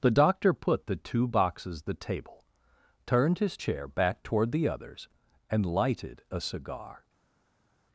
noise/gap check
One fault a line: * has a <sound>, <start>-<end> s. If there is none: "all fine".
all fine